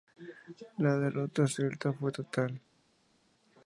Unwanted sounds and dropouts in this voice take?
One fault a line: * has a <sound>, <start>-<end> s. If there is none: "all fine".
all fine